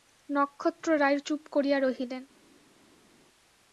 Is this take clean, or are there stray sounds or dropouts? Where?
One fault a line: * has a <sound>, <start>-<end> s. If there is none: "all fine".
all fine